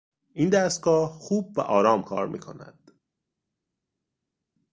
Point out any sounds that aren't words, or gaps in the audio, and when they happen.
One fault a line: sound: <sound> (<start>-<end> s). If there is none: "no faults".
no faults